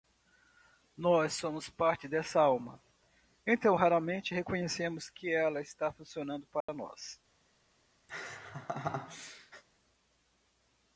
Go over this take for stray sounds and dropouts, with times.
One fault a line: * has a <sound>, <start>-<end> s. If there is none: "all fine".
* has a dropout, 6.6-6.7 s
* has a laugh, 8.1-9.6 s